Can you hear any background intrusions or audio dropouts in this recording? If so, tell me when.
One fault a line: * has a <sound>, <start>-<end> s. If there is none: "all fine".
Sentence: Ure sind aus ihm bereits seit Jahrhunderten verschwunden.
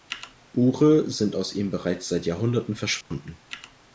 * has a dropout, 3.0-3.1 s